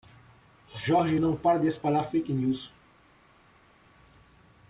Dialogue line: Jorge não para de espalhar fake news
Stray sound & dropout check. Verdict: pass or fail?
pass